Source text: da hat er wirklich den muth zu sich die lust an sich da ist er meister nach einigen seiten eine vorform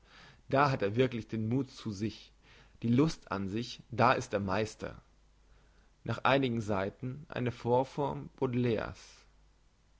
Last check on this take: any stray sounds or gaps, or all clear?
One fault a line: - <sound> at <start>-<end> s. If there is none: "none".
none